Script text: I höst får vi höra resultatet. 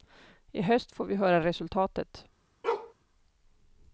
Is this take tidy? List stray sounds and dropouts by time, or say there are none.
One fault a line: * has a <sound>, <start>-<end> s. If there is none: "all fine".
* has a bark, 2.6-2.9 s